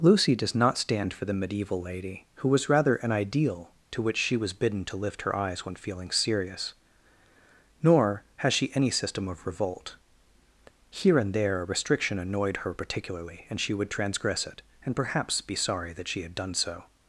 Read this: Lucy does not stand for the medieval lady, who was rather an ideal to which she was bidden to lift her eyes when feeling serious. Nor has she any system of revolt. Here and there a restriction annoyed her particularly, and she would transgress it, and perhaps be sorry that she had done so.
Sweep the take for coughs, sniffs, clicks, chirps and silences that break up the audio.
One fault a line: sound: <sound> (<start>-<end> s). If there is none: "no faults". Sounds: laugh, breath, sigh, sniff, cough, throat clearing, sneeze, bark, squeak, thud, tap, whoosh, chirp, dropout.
no faults